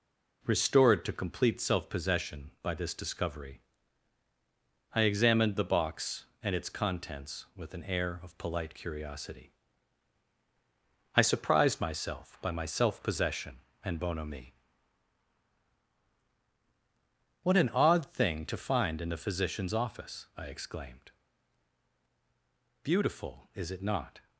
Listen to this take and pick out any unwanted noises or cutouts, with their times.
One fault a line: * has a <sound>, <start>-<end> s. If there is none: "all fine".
all fine